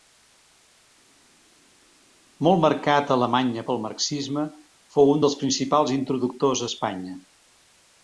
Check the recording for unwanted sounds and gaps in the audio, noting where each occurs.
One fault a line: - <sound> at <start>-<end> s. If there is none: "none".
none